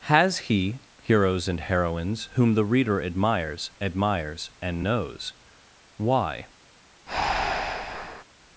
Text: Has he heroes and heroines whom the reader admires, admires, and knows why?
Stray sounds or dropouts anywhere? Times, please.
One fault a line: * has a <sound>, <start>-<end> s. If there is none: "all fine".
* has a breath, 7.1-8.2 s